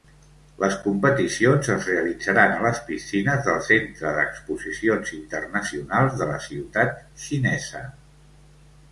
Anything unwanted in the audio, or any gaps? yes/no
no